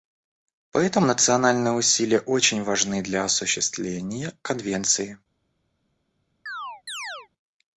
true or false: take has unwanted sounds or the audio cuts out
true